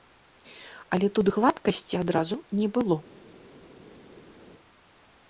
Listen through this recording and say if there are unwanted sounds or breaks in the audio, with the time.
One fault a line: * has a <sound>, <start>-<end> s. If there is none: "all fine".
all fine